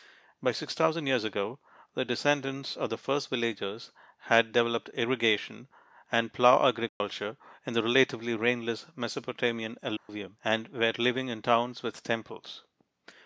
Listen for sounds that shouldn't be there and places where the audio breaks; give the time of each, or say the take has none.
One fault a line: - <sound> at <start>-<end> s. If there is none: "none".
- dropout at 6.9-7.0 s
- dropout at 10.0-10.1 s